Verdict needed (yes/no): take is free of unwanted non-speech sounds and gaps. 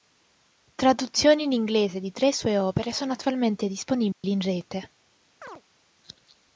no